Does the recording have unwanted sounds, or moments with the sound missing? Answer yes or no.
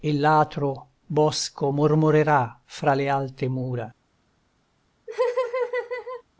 yes